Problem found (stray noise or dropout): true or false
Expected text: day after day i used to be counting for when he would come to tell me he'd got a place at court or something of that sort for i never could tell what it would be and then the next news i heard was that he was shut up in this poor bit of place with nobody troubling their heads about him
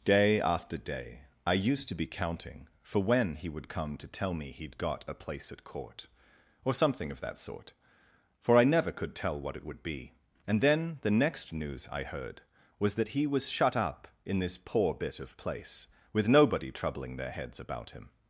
false